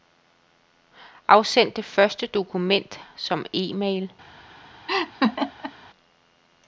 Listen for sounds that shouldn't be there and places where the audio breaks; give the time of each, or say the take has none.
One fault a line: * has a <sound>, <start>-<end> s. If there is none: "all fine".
* has a laugh, 4.9-5.7 s